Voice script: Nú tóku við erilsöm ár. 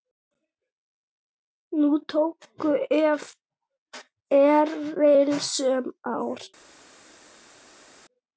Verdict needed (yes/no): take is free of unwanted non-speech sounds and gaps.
yes